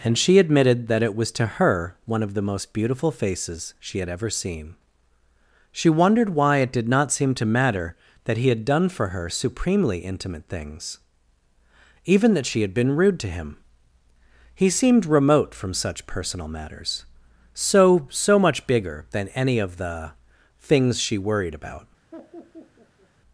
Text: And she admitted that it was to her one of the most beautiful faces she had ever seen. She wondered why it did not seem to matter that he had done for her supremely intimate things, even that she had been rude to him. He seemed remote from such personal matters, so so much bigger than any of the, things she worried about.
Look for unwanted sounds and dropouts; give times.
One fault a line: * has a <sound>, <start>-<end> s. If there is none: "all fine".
* has a laugh, 22.1-23.1 s